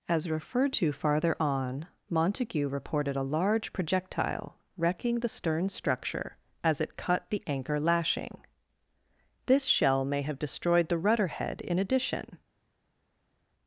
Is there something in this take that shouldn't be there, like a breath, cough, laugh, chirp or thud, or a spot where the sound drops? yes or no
no